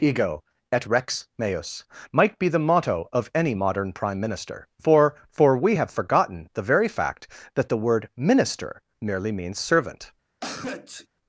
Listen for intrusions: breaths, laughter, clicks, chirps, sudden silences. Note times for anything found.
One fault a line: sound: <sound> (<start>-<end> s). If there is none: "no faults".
sound: sneeze (10.4-11.1 s)